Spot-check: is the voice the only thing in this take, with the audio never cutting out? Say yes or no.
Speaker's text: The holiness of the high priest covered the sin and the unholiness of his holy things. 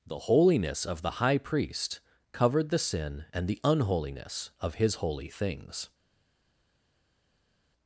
yes